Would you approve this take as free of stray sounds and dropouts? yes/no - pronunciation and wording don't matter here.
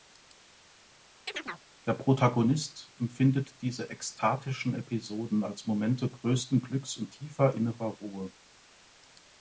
no